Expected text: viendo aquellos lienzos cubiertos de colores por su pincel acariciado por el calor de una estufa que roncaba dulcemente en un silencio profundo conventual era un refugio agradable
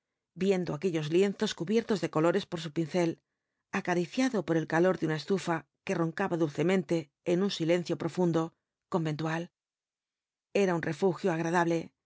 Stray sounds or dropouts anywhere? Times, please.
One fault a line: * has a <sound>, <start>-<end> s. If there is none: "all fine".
all fine